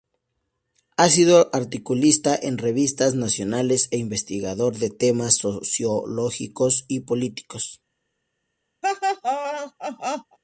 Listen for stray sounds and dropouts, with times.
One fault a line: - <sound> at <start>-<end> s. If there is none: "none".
- laugh at 8.8-10.4 s